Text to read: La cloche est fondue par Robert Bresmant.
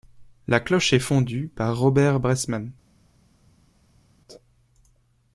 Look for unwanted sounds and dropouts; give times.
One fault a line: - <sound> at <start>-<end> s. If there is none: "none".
none